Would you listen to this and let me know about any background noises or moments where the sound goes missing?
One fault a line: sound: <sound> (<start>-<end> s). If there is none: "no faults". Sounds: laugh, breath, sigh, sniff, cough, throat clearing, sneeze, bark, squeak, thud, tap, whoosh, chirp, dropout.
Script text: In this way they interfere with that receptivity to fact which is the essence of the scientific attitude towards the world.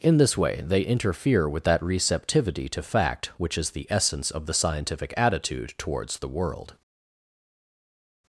no faults